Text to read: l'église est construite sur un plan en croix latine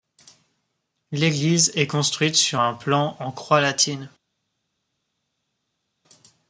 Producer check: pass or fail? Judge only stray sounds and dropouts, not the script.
pass